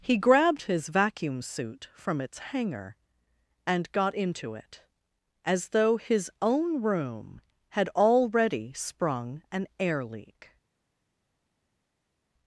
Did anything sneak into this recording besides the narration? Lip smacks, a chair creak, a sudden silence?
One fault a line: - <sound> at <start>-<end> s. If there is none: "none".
none